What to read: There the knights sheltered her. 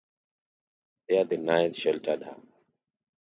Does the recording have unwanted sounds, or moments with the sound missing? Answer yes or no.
no